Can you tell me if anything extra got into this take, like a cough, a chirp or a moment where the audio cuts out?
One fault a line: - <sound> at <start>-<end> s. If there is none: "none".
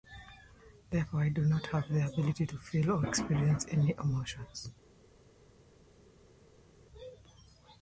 none